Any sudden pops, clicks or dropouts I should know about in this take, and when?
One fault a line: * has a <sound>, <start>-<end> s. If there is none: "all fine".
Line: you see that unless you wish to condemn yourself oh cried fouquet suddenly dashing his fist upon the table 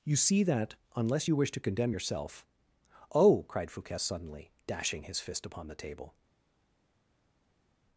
all fine